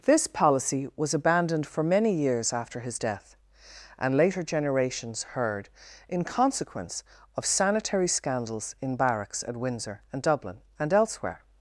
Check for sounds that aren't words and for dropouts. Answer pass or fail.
pass